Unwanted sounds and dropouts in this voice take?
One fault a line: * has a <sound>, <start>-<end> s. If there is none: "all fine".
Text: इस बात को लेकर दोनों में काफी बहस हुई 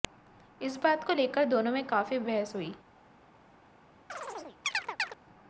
* has a chirp, 4.1-5.2 s